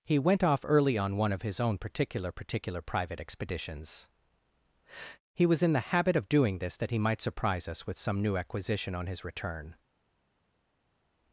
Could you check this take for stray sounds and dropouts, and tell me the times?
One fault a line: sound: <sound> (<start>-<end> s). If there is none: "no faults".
no faults